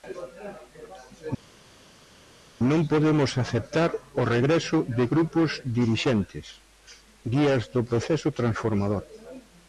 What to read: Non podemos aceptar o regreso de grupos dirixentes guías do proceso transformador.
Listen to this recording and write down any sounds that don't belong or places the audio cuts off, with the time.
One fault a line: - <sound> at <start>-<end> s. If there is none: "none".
none